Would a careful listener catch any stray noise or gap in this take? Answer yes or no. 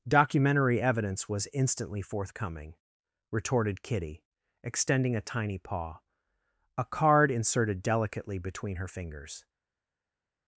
no